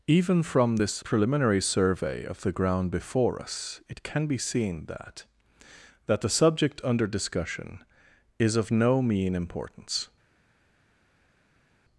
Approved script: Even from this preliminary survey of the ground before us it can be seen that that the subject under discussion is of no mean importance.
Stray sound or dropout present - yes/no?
no